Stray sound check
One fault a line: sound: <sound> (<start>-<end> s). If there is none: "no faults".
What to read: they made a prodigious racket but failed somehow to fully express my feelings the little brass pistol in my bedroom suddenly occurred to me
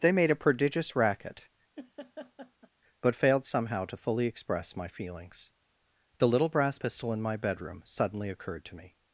sound: laugh (1.8-2.7 s)